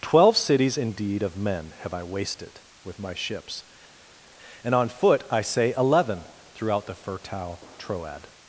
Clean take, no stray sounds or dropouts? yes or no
yes